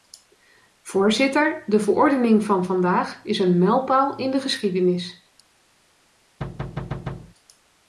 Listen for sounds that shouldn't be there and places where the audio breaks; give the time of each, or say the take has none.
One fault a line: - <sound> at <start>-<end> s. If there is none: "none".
- thud at 6.4-7.3 s